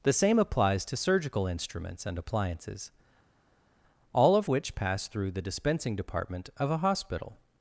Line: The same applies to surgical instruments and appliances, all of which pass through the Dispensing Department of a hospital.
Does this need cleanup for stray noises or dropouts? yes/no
no